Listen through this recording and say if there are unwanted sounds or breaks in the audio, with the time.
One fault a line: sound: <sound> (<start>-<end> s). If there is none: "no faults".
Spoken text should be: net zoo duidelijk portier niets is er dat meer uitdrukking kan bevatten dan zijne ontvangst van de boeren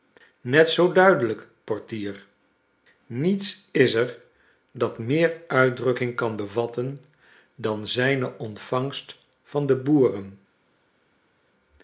no faults